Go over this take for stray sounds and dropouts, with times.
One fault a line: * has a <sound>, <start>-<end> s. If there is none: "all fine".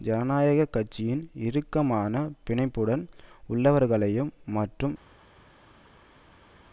all fine